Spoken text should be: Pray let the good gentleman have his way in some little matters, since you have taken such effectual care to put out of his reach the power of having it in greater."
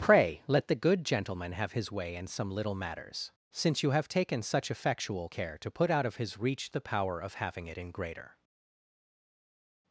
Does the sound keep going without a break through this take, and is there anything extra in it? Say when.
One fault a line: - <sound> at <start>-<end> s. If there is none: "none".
none